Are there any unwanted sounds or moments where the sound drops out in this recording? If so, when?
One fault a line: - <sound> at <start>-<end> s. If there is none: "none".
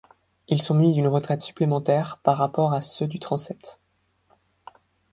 none